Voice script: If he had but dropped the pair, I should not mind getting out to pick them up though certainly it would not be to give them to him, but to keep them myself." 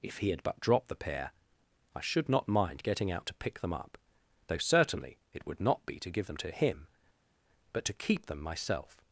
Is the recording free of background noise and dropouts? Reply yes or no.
yes